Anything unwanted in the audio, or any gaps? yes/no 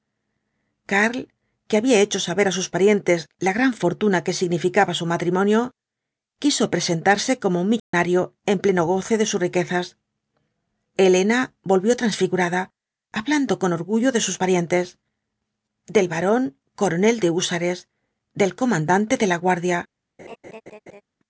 yes